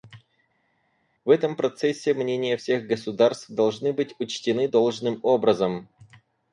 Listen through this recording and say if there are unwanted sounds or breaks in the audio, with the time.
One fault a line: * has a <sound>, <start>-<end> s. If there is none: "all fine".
all fine